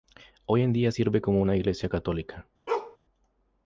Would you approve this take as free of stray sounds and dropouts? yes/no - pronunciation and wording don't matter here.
no